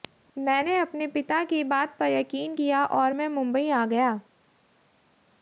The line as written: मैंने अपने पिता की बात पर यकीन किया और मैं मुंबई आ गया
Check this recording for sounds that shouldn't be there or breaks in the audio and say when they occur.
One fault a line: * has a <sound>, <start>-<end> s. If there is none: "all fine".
all fine